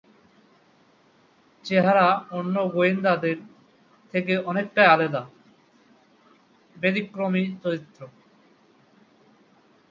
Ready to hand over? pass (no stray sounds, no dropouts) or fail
pass